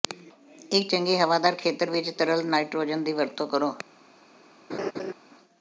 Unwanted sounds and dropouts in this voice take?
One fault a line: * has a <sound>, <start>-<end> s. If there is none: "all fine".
* has a laugh, 4.7-5.1 s